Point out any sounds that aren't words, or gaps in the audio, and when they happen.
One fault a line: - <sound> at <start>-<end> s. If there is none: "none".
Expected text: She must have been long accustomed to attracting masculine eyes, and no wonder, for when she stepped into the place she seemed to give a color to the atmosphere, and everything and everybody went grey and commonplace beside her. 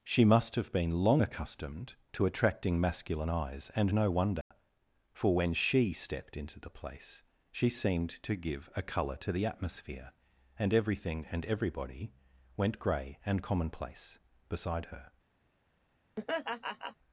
- dropout at 4.4-4.5 s
- laugh at 16.2-17.0 s